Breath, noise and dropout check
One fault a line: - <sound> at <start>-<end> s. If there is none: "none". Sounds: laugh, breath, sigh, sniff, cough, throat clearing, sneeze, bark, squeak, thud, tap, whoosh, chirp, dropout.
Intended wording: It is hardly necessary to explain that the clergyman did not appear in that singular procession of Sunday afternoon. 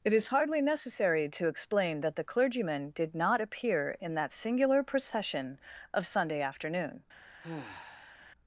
- sigh at 7.4-8.2 s